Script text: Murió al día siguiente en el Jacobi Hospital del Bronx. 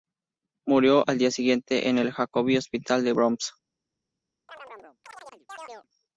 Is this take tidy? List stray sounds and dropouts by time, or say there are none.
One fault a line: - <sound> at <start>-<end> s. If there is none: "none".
- chirp at 4.5-5.9 s